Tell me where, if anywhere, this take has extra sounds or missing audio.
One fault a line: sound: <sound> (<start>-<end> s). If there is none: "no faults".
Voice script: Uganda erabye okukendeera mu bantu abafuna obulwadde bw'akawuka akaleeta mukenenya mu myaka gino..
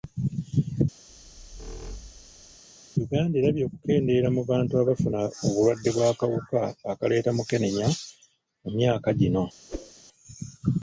sound: squeak (1.1-2.6 s)
sound: whoosh (9.7-9.9 s)